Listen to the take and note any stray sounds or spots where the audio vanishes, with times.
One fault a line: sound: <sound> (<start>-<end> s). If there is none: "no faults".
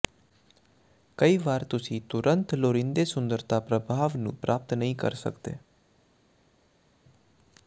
no faults